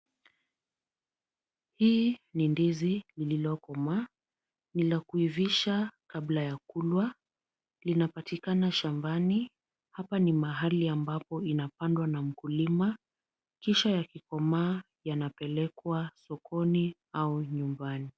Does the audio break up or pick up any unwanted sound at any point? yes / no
no